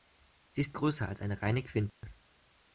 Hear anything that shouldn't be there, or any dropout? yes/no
yes